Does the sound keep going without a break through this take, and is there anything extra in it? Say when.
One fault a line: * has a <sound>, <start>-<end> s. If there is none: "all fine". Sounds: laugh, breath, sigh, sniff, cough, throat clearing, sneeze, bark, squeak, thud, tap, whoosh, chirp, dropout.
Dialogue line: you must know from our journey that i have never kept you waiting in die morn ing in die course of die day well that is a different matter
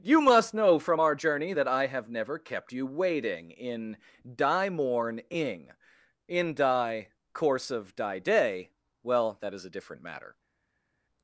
all fine